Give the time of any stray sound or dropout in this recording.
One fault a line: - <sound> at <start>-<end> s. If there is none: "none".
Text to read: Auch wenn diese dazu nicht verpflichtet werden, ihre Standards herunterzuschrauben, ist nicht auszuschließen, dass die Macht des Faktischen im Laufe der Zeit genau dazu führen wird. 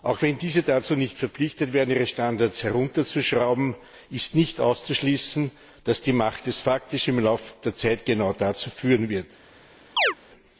- chirp at 10.0-10.1 s